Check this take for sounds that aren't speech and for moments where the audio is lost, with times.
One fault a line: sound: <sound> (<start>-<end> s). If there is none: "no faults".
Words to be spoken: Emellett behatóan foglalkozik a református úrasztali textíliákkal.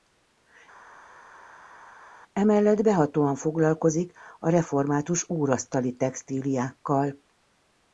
no faults